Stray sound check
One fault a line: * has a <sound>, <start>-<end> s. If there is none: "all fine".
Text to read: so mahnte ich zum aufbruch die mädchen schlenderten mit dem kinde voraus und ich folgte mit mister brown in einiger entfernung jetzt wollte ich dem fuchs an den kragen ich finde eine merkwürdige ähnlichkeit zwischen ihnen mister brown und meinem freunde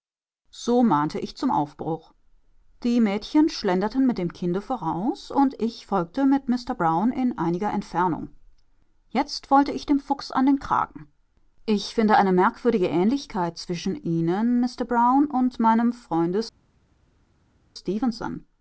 all fine